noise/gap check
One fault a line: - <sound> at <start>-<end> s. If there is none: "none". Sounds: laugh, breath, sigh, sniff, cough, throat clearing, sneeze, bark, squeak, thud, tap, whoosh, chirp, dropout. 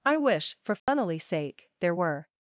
- dropout at 0.8-0.9 s